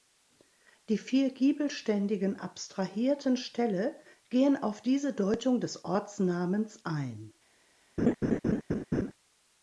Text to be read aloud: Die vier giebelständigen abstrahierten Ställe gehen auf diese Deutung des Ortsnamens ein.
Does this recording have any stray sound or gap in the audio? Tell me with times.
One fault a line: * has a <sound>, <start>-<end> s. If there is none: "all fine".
* has a laugh, 8.0-9.1 s